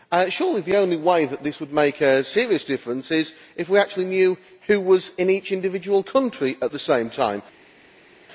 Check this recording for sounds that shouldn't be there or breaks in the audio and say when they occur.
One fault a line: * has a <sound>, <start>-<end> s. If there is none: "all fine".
all fine